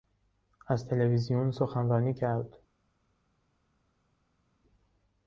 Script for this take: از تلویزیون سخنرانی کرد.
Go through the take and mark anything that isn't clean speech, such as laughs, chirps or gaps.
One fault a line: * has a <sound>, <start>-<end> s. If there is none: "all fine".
all fine